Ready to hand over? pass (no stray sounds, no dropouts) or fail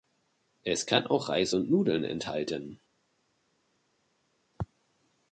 pass